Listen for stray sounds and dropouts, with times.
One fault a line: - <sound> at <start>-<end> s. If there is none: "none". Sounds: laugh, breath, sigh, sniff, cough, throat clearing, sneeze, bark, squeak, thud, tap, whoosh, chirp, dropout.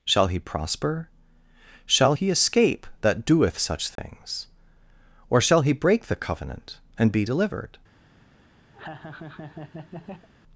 - dropout at 4.0-4.0 s
- laugh at 8.7-10.3 s